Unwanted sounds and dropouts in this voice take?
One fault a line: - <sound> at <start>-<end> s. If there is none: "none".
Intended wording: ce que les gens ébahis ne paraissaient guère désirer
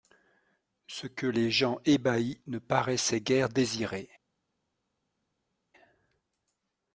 none